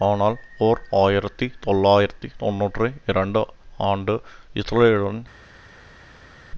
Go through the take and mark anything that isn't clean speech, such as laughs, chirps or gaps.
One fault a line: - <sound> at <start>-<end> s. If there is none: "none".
none